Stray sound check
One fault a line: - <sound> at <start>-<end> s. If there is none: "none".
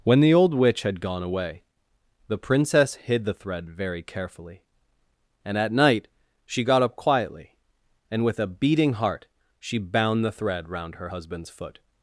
none